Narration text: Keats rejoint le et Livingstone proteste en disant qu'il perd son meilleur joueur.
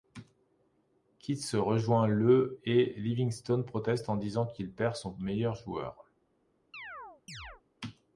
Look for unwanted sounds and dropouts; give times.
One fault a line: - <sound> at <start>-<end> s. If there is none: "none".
- chirp at 6.7-7.6 s